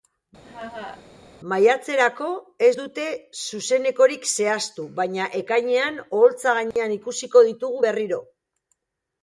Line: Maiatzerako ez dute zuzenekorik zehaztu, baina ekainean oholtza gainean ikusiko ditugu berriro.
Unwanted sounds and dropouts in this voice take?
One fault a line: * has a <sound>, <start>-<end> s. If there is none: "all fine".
* has a laugh, 0.4-1.0 s
* has a dropout, 6.7-6.8 s